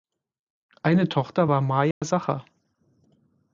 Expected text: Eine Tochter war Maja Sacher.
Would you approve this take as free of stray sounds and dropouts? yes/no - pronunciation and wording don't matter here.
no